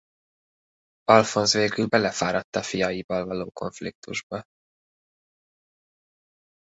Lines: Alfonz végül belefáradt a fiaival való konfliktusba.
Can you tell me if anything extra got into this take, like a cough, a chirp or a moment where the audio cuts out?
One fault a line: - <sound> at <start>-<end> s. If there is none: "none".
none